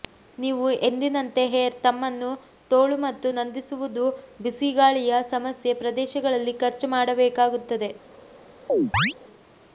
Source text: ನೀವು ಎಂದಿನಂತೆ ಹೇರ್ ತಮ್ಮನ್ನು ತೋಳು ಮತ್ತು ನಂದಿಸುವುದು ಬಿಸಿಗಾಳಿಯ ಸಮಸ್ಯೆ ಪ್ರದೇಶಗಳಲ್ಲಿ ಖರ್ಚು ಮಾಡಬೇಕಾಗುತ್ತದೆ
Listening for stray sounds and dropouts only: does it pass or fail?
fail